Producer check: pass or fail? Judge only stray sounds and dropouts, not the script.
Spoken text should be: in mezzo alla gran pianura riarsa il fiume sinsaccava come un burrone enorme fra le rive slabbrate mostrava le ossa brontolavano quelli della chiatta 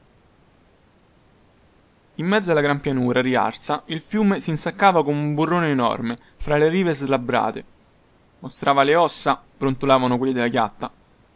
pass